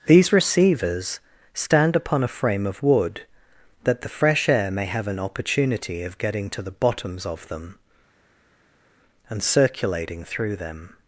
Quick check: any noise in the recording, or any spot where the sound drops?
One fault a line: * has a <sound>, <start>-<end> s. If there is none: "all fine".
all fine